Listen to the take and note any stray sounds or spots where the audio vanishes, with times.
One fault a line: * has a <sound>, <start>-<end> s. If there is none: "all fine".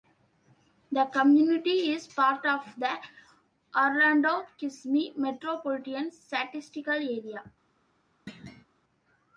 * has a thud, 8.3-8.6 s